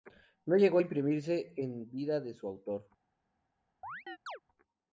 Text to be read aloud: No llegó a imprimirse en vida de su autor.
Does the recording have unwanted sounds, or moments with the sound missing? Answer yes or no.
yes